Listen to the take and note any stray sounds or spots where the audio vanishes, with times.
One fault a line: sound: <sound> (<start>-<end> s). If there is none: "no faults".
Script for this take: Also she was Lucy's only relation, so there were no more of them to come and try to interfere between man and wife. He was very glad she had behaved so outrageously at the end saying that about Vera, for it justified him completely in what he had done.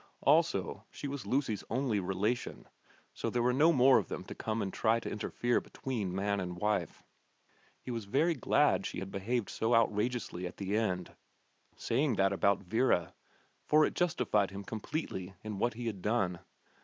no faults